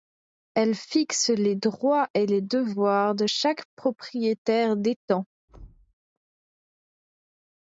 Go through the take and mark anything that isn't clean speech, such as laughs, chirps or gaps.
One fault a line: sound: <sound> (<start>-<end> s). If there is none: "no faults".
sound: thud (5.5-5.9 s)